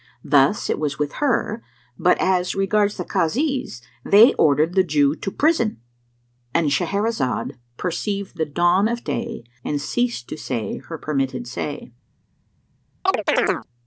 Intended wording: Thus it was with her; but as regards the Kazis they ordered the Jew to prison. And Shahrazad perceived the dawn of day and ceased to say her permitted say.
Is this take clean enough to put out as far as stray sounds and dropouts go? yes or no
no